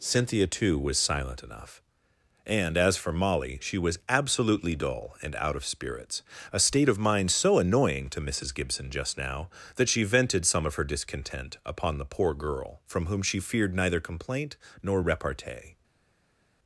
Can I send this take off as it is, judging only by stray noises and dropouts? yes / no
yes